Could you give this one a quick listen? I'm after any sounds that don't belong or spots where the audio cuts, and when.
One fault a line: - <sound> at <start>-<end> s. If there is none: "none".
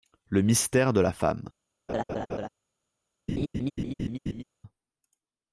- laugh at 1.9-2.5 s
- laugh at 3.3-4.4 s